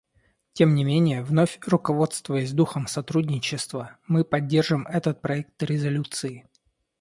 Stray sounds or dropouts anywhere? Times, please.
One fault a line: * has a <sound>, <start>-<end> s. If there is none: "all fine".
all fine